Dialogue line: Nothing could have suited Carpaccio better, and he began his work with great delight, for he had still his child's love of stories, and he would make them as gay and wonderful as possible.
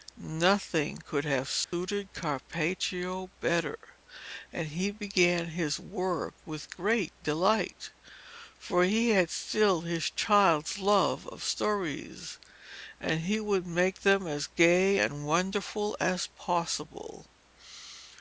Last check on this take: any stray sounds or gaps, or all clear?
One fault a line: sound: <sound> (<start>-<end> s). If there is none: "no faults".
sound: dropout (1.6-1.7 s)